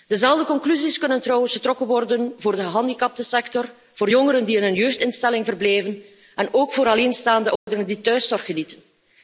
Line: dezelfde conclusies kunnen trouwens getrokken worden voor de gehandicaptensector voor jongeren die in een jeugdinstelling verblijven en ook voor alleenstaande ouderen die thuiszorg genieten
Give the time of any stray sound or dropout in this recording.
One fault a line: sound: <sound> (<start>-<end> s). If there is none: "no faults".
sound: dropout (7.6-7.7 s)